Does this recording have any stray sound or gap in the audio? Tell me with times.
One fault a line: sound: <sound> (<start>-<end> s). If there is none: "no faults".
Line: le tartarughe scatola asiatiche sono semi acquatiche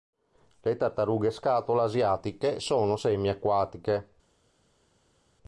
no faults